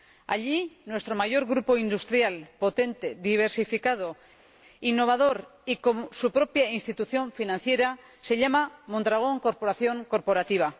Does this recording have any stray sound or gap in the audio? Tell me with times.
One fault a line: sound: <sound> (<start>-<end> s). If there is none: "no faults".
no faults